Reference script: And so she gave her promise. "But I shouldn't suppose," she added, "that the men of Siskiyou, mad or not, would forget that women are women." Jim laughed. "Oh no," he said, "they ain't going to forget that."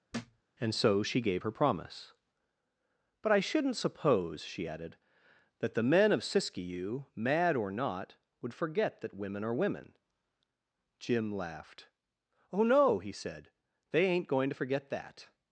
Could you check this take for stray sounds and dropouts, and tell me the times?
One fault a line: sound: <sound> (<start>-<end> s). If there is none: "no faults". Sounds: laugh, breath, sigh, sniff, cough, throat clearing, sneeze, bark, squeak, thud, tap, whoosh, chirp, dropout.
sound: thud (0.1-0.4 s)